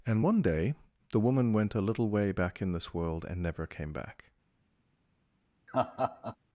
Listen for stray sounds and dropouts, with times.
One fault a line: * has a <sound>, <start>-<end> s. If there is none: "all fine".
* has a laugh, 5.7-6.4 s